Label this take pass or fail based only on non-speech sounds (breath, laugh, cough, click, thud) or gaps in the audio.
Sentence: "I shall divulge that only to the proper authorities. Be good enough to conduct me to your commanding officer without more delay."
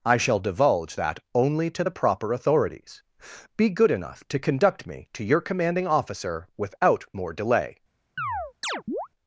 fail